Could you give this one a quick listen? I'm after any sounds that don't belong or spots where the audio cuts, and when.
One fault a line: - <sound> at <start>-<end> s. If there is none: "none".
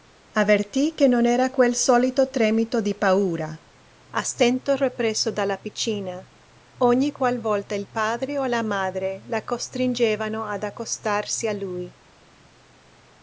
none